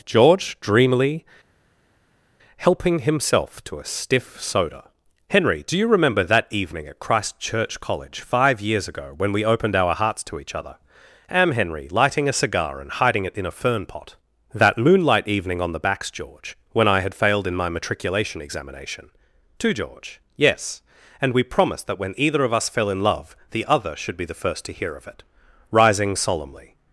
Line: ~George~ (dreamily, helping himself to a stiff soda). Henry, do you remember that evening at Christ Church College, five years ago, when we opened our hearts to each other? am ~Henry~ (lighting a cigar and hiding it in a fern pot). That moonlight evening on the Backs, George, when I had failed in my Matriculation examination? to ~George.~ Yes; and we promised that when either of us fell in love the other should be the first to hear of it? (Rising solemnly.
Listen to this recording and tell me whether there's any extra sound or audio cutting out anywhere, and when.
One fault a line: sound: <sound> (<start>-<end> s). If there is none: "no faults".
no faults